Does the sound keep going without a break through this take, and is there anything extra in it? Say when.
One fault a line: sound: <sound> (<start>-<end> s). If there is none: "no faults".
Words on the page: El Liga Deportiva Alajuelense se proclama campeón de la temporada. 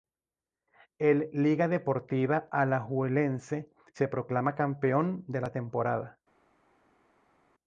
no faults